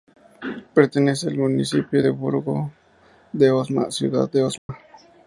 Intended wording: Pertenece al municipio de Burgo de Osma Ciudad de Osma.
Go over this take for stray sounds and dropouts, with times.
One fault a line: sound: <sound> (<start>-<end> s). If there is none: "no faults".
sound: dropout (4.6-4.7 s)